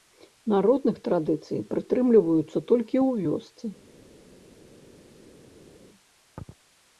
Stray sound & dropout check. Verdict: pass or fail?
pass